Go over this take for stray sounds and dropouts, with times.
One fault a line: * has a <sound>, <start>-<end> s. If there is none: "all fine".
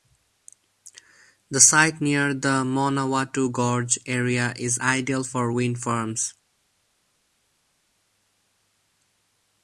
all fine